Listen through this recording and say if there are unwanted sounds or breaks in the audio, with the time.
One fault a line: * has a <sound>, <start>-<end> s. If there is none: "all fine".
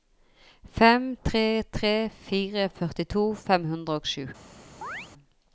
* has a chirp, 4.8-5.1 s